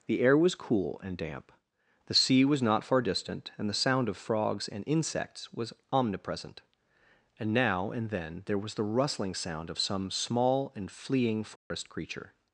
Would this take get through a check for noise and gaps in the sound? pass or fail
fail